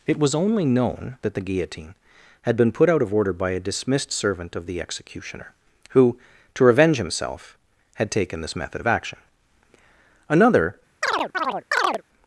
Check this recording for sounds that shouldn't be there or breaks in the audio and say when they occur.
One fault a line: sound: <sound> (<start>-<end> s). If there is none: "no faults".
sound: chirp (11.0-12.0 s)